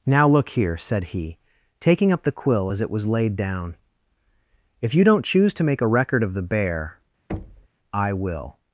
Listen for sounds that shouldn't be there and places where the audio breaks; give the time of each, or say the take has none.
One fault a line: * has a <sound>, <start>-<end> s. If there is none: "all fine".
* has a thud, 7.3-7.7 s